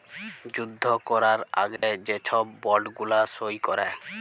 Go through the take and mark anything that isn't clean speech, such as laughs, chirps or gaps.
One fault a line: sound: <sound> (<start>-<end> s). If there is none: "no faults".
sound: dropout (1.8-1.8 s)